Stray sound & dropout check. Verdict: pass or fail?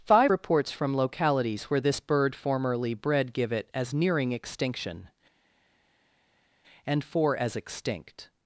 pass